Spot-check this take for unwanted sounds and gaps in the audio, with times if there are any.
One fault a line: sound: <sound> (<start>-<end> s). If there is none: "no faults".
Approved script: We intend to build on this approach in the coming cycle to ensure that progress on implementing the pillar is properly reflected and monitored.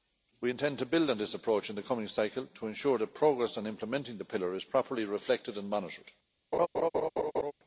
sound: laugh (6.5-7.5 s)